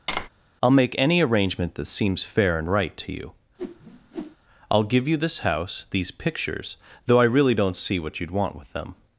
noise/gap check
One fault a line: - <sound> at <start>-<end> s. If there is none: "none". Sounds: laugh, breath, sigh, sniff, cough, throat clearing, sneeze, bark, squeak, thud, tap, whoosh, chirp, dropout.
- tap at 0.1-0.3 s
- whoosh at 3.6-4.4 s